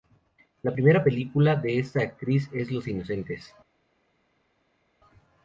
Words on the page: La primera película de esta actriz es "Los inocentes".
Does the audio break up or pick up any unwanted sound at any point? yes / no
no